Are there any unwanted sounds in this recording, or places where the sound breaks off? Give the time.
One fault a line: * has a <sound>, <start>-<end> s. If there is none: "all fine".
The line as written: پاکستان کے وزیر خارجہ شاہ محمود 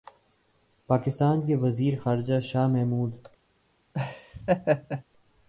* has a laugh, 3.9-5.0 s